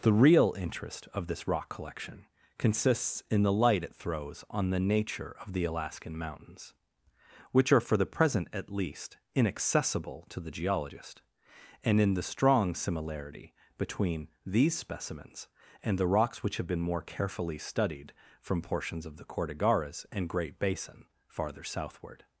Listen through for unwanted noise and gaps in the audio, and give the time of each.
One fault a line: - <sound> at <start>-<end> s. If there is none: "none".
none